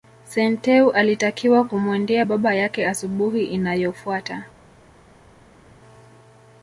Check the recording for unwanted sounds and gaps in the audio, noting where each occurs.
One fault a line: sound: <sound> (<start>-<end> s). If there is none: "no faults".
no faults